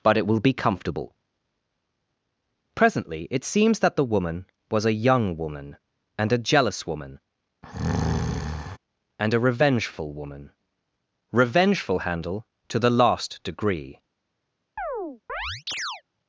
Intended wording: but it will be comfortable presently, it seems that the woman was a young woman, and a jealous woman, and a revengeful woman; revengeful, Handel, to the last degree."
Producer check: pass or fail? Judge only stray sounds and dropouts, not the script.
fail